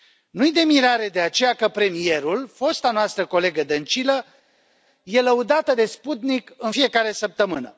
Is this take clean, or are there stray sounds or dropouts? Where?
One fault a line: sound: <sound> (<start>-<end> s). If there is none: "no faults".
no faults